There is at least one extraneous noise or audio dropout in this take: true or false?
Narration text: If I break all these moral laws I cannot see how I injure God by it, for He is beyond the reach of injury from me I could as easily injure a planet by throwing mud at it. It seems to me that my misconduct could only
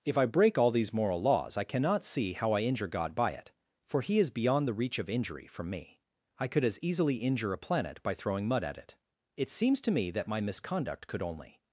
false